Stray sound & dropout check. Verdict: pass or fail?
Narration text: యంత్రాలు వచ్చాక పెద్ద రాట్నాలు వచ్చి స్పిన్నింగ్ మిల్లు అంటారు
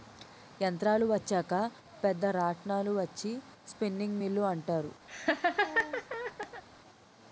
fail